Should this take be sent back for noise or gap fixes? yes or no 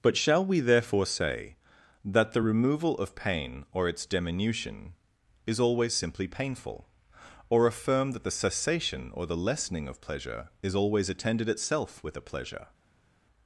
no